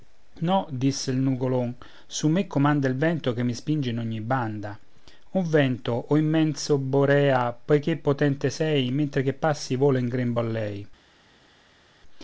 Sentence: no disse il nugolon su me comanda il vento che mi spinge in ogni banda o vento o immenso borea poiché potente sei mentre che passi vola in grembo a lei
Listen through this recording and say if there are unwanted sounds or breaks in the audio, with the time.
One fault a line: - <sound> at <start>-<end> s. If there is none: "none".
none